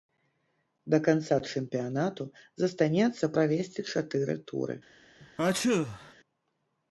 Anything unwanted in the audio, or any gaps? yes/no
yes